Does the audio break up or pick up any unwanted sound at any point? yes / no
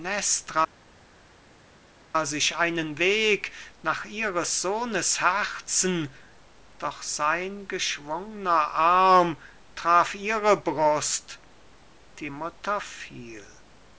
no